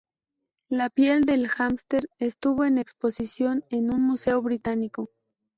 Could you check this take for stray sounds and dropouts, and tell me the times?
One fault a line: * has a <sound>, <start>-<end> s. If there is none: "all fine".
all fine